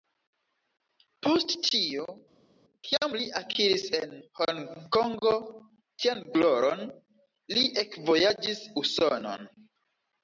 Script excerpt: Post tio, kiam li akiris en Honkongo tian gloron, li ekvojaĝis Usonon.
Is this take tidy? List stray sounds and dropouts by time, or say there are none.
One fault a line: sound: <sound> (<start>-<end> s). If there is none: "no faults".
no faults